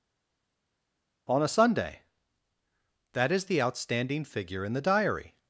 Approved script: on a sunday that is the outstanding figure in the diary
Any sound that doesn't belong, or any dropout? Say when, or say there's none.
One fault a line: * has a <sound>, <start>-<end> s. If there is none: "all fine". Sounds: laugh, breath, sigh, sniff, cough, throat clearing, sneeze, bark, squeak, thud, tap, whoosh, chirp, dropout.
all fine